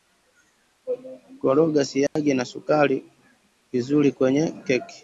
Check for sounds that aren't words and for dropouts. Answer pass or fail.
fail